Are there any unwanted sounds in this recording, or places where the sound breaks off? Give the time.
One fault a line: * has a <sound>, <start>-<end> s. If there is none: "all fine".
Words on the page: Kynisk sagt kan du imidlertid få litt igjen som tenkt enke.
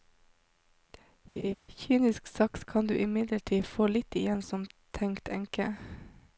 * has a laugh, 1.4-1.5 s